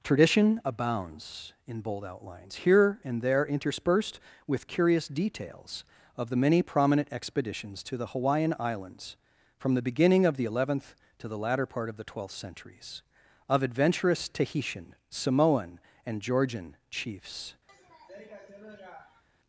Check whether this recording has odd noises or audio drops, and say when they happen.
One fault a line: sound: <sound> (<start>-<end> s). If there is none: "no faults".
sound: sniff (17.7-19.2 s)